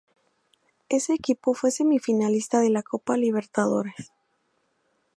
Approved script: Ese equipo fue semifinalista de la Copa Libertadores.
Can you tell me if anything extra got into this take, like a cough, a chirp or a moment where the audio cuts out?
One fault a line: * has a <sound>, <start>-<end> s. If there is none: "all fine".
all fine